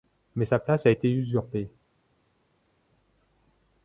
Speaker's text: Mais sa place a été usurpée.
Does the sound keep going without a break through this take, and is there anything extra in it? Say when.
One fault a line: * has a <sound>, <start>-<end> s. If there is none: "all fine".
all fine